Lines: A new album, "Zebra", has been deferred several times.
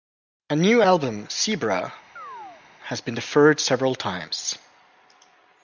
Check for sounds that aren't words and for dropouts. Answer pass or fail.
fail